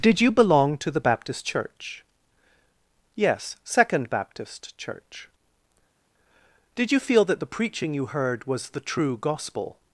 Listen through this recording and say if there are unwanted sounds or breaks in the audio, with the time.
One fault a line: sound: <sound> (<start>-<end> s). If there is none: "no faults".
no faults